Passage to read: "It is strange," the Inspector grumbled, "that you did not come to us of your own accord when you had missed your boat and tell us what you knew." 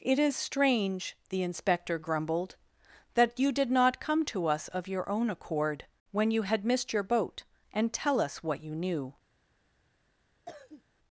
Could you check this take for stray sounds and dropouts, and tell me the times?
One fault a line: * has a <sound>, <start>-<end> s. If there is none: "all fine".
* has a cough, 10.5-10.8 s